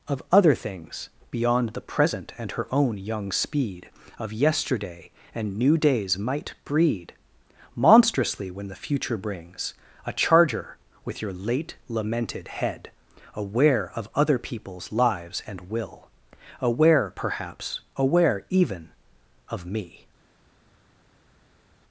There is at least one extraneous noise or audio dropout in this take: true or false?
false